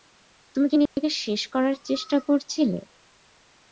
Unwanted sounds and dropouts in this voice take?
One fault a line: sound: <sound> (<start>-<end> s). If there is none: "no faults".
sound: dropout (0.9-1.0 s)